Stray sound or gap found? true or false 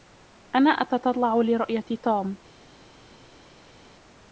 false